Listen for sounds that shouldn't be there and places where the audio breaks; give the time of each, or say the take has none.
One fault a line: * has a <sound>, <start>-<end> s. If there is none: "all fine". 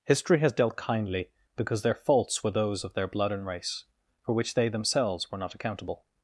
all fine